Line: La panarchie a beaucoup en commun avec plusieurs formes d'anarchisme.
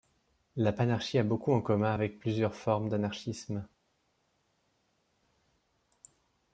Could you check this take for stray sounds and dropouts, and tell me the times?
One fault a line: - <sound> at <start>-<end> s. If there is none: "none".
none